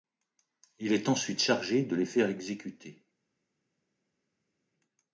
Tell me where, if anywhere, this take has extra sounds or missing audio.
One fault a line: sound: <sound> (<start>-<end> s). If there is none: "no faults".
no faults